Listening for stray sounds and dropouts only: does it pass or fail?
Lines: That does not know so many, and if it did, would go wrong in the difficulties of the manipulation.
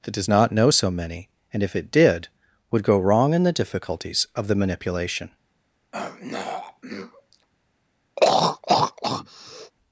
fail